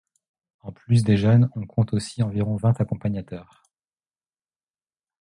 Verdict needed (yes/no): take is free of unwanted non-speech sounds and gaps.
yes